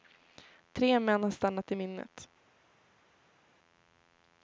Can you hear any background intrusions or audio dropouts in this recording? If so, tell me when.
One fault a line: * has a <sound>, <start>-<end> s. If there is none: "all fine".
all fine